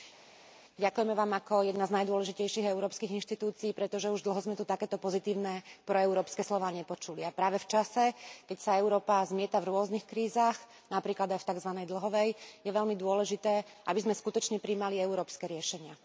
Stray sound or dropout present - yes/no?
no